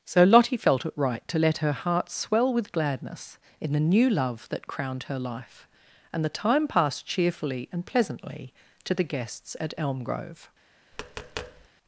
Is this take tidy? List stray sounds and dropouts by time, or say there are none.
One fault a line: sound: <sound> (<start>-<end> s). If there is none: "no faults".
sound: tap (10.9-11.7 s)